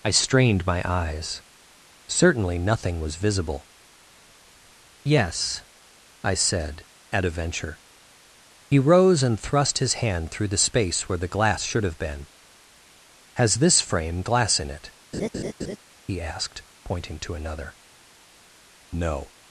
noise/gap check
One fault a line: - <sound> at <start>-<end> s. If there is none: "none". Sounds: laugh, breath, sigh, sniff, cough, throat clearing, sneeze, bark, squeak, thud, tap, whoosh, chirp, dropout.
- laugh at 15.1-15.8 s